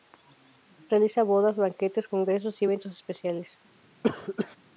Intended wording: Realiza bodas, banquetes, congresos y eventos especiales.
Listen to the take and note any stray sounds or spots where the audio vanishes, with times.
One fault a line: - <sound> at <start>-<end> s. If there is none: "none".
- cough at 4.0-4.6 s